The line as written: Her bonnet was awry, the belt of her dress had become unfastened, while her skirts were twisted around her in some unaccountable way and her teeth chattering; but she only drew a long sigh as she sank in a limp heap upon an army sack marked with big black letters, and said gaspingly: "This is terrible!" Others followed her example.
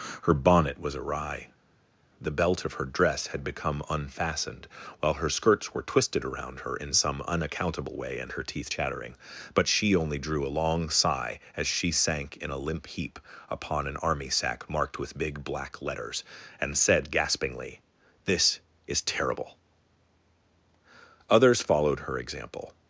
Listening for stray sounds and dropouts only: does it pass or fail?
pass